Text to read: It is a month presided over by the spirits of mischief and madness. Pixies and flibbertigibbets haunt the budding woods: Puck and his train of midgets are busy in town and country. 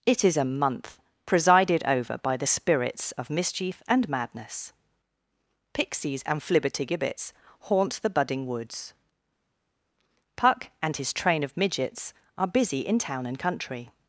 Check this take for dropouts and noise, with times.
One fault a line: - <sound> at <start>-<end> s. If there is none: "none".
none